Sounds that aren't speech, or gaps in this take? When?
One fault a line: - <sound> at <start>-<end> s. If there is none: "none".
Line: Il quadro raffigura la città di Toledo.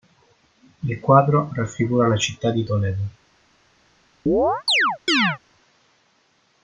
- chirp at 4.3-5.4 s